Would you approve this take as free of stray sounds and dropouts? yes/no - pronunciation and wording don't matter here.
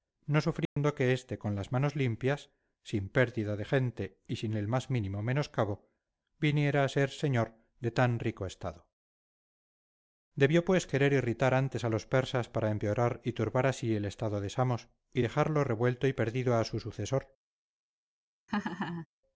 no